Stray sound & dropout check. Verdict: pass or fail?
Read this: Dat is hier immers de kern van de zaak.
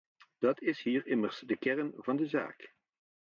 pass